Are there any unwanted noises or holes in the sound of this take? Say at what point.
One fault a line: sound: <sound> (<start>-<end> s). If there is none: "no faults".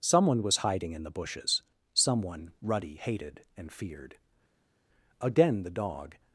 no faults